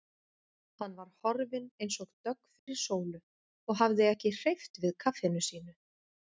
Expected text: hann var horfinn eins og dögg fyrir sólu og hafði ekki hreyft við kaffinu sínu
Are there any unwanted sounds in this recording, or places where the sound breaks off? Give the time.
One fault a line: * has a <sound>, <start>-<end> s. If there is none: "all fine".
* has a dropout, 2.6-2.7 s